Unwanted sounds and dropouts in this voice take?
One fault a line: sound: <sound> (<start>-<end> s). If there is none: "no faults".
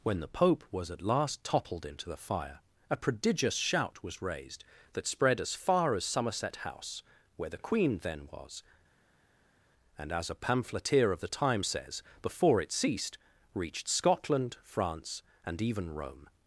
no faults